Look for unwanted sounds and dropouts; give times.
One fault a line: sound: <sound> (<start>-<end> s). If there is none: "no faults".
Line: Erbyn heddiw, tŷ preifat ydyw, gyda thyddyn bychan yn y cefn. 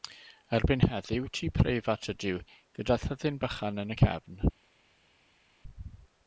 no faults